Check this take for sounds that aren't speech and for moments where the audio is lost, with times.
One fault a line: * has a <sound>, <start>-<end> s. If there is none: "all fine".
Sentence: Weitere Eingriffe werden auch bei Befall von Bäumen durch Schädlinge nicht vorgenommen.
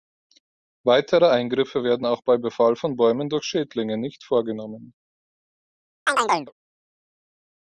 * has a chirp, 6.1-6.5 s